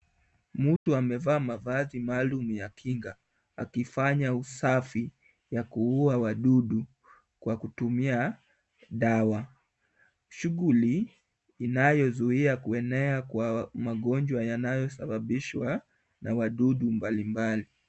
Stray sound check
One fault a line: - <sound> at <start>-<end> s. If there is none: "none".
- dropout at 0.8-0.9 s